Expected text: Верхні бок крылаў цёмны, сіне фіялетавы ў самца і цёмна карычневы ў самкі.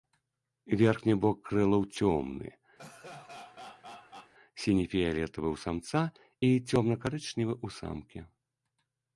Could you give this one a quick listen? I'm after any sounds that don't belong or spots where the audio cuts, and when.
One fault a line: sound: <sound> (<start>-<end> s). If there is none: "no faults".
sound: laugh (2.8-4.3 s)